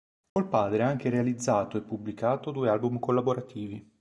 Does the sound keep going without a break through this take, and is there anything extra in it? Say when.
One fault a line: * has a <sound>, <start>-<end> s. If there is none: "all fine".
* has a dropout, 0.3-0.4 s